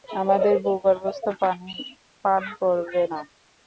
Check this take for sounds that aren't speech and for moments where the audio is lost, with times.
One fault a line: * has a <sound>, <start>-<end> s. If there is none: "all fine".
all fine